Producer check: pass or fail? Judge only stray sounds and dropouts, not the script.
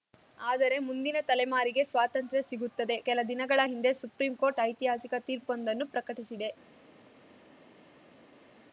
pass